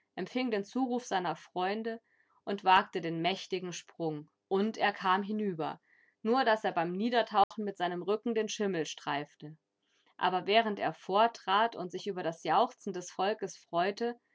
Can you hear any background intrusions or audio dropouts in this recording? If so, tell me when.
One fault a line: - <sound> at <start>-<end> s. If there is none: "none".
- dropout at 7.4-7.5 s